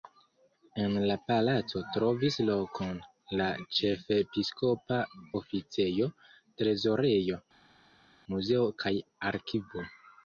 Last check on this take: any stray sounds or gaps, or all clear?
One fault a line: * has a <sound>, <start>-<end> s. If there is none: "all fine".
all fine